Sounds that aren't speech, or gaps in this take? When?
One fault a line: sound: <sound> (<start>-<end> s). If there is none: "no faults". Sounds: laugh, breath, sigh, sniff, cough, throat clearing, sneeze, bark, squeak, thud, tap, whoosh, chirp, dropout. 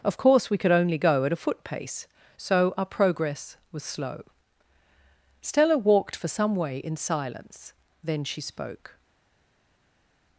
no faults